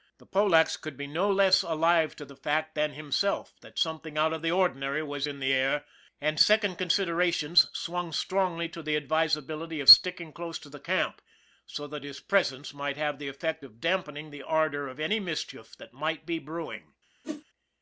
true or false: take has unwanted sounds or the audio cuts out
true